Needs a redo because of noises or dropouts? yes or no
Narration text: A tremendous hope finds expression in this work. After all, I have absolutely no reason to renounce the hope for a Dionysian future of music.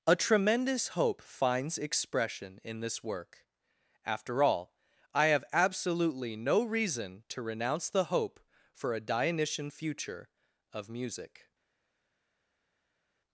no